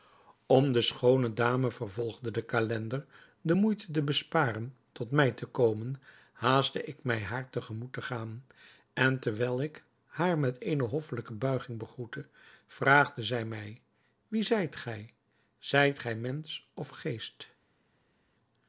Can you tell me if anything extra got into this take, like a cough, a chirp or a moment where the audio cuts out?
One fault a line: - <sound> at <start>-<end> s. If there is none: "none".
none